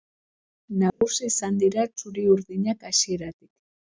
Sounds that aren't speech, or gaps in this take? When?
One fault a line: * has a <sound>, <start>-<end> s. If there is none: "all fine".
* has a dropout, 0.9-1.0 s